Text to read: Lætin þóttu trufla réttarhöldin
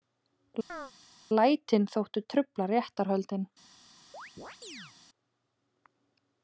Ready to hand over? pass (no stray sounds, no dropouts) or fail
fail